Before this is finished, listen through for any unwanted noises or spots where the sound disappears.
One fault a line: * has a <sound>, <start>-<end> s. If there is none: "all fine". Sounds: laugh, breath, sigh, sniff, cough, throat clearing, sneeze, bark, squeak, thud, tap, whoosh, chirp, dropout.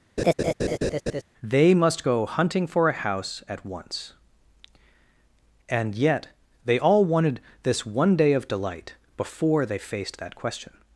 * has a laugh, 0.2-1.2 s